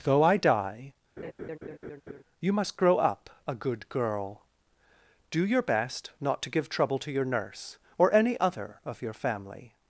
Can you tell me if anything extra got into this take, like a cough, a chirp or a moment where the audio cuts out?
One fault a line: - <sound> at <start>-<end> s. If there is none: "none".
- laugh at 1.2-2.2 s